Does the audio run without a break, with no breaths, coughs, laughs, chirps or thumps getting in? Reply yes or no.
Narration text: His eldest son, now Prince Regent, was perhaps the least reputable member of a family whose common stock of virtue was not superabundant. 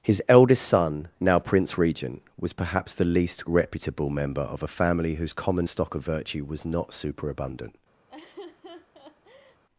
no